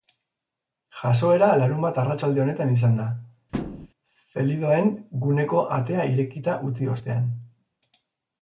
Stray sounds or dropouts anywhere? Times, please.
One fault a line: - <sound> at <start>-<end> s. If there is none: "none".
- thud at 3.5-3.9 s